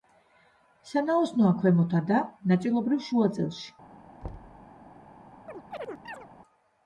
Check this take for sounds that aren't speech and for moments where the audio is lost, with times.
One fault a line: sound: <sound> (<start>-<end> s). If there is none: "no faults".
sound: thud (4.2-4.7 s)
sound: chirp (5.5-6.3 s)